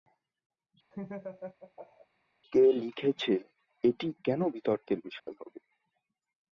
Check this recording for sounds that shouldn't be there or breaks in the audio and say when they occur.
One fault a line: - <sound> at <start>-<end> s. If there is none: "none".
- laugh at 0.9-2.1 s
- dropout at 5.2-5.3 s